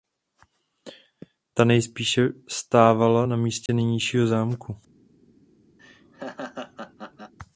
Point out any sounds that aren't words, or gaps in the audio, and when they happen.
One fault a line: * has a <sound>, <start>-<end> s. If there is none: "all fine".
* has a dropout, 3.7-3.7 s
* has a laugh, 5.8-7.3 s